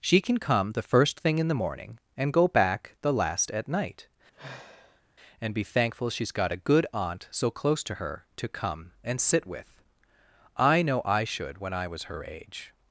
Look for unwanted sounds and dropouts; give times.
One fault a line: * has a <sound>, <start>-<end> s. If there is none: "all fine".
* has a sigh, 4.3-5.0 s